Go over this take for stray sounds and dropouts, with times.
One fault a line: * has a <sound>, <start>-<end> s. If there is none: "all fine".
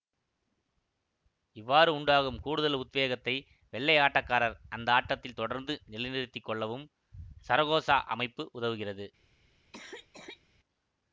* has a cough, 9.7-10.4 s